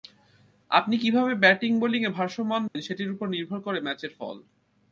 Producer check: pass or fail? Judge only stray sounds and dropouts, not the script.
fail